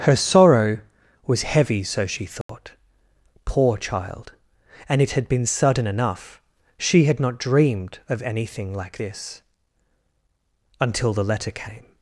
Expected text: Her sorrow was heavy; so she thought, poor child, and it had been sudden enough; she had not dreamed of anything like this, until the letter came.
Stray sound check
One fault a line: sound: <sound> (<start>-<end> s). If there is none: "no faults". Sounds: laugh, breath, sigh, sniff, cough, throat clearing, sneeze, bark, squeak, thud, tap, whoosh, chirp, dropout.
sound: dropout (2.4-2.5 s)